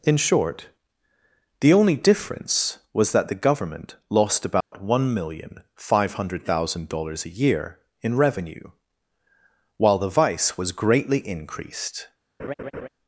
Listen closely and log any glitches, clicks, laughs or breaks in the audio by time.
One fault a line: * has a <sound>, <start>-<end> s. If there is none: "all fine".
* has a dropout, 4.6-4.7 s
* has a laugh, 12.4-12.9 s